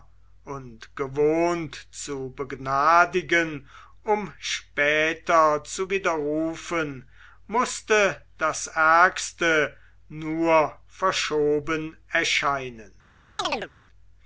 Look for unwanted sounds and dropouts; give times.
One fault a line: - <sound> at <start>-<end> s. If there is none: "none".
- chirp at 13.4-13.7 s